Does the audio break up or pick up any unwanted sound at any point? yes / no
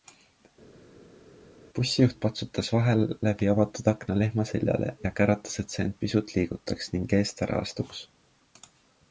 no